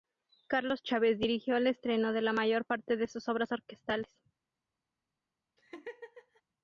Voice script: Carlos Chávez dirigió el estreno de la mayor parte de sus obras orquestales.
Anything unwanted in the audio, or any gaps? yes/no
yes